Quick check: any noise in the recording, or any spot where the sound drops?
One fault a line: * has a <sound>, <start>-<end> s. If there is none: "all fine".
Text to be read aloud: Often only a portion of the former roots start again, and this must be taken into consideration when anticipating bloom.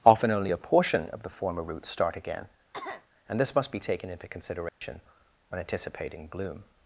* has a cough, 2.7-3.1 s
* has a dropout, 4.7-4.8 s